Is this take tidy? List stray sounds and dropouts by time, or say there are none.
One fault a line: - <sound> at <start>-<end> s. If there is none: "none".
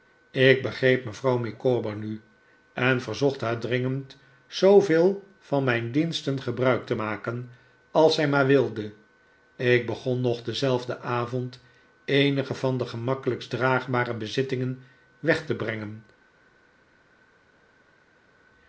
none